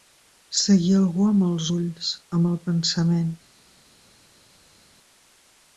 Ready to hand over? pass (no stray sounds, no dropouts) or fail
pass